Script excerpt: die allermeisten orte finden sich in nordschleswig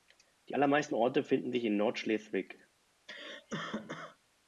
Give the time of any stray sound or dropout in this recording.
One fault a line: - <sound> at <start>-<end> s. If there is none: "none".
- cough at 3.1-4.2 s